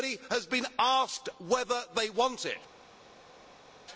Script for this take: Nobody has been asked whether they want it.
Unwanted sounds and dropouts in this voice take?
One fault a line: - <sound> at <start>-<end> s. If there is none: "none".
none